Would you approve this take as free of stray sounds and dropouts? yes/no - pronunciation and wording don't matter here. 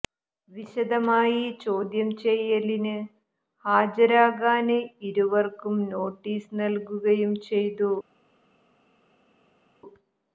yes